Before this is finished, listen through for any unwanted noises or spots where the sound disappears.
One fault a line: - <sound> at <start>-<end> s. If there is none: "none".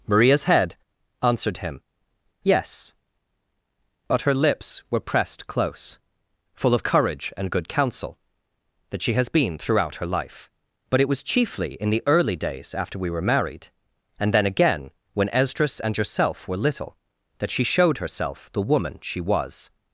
none